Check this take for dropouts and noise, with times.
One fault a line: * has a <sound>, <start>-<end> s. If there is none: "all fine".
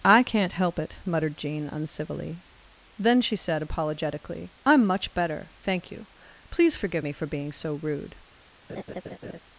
* has a laugh, 8.7-9.4 s